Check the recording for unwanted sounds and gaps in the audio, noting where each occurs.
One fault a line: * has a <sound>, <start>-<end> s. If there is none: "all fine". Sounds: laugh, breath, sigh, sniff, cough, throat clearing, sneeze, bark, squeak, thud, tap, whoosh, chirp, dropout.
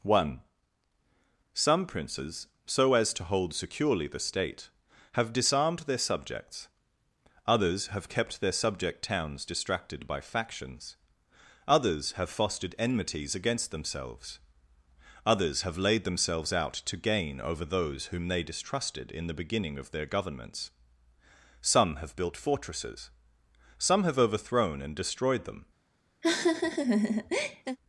* has a laugh, 26.2-27.8 s